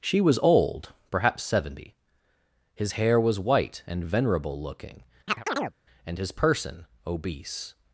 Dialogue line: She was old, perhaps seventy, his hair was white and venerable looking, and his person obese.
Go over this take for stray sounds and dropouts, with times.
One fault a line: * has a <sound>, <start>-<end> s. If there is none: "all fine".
* has a chirp, 5.3-5.7 s